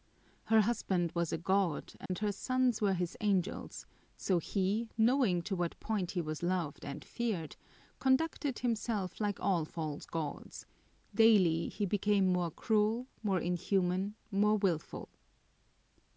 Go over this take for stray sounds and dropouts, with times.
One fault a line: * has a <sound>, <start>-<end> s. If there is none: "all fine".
* has a dropout, 2.1-2.1 s